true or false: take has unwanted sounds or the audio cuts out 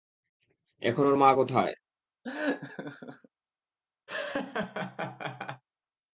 true